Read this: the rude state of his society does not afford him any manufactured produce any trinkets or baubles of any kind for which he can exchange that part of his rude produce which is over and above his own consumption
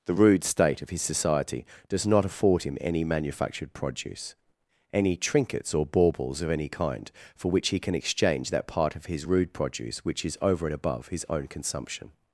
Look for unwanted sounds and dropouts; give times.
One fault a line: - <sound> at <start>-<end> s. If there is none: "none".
none